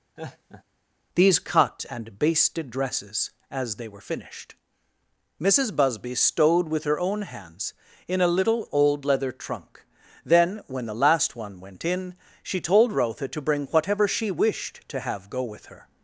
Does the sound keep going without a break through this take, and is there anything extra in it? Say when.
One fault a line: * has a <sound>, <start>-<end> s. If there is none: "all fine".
* has a laugh, 0.2-0.6 s